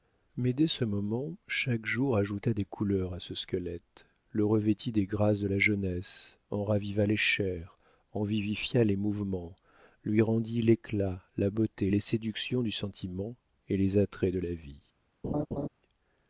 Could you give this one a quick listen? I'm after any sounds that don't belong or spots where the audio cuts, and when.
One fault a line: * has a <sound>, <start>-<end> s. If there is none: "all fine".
* has a laugh, 15.2-15.7 s